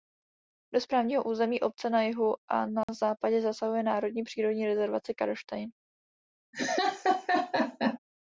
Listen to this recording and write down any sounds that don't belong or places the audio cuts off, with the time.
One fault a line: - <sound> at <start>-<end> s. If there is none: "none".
- dropout at 2.8-2.9 s
- laugh at 6.5-8.0 s